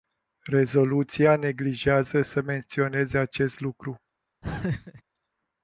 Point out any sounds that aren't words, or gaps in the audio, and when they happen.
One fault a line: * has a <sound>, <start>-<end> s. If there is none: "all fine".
* has a laugh, 4.4-5.0 s